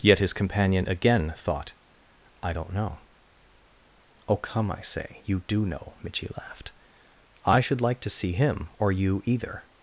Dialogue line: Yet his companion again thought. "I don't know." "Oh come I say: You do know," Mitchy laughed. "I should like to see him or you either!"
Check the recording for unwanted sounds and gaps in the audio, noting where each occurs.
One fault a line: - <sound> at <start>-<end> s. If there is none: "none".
none